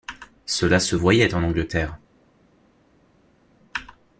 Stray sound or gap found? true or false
false